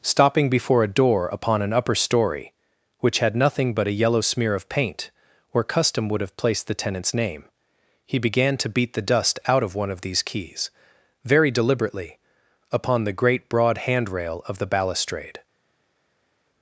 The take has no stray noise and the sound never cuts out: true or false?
true